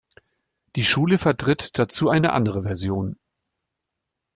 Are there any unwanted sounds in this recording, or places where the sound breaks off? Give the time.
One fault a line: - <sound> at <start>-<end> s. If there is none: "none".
none